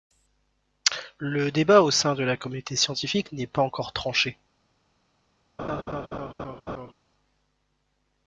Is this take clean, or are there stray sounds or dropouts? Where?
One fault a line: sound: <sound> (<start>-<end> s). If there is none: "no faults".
sound: laugh (5.6-6.9 s)